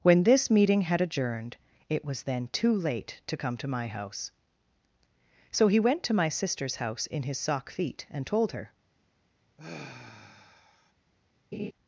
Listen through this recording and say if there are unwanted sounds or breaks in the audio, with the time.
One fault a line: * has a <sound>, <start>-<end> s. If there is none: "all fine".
* has a sigh, 9.6-10.9 s
* has a laugh, 11.5-11.7 s